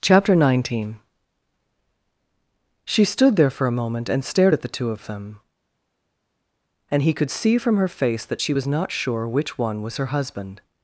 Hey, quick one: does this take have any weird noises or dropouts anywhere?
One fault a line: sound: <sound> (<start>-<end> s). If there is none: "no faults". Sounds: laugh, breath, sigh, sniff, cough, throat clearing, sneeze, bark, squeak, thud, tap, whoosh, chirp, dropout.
no faults